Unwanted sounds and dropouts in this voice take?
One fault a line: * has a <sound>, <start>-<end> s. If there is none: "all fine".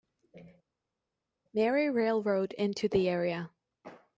all fine